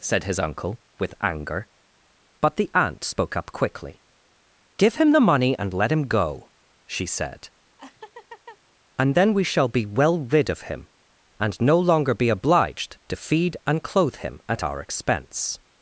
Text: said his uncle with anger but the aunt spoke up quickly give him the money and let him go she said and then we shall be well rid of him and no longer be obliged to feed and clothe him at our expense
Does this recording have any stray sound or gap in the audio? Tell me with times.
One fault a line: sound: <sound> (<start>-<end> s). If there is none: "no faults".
sound: laugh (7.8-8.6 s)